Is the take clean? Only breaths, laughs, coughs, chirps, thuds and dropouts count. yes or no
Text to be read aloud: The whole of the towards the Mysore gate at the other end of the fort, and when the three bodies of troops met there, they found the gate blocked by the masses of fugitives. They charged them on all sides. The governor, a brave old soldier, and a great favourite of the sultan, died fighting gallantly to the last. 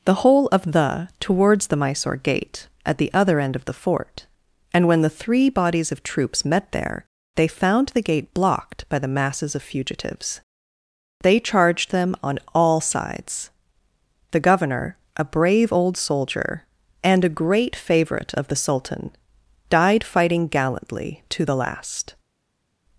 yes